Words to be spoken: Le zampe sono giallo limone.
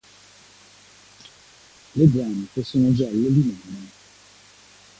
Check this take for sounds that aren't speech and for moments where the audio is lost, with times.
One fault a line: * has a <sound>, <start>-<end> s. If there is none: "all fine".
all fine